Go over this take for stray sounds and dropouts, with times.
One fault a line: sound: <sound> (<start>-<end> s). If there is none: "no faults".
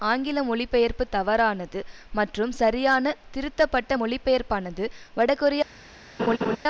sound: laugh (6.2-6.6 s)